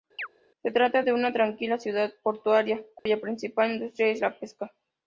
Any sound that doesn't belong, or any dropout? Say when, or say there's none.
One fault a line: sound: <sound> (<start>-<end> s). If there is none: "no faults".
sound: chirp (0.2-0.3 s)
sound: dropout (3.0-3.1 s)